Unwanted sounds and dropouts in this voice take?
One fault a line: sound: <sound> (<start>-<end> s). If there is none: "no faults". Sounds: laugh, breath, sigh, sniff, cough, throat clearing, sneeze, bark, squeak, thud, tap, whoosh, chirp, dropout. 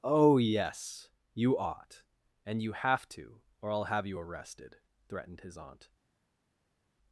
no faults